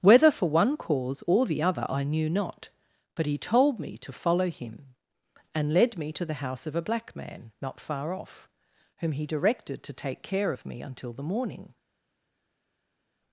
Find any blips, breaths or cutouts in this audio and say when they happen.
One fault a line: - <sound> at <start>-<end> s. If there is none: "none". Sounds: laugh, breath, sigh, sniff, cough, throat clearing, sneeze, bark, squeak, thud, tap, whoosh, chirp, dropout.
none